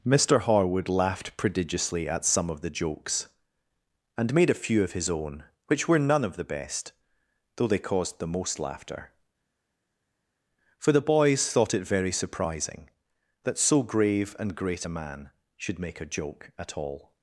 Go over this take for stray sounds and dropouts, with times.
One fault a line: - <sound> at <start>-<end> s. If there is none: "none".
none